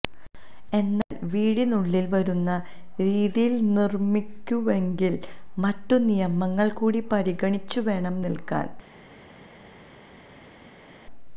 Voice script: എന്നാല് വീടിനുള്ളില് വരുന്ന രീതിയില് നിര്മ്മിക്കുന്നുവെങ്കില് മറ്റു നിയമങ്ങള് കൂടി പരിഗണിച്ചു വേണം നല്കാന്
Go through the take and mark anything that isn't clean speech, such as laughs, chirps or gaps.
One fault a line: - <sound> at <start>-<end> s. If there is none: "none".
none